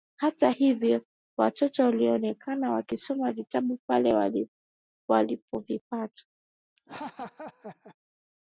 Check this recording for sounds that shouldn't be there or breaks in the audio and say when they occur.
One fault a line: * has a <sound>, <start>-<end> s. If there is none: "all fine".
* has a laugh, 6.8-8.0 s